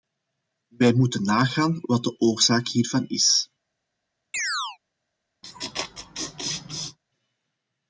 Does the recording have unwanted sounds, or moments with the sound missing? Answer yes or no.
yes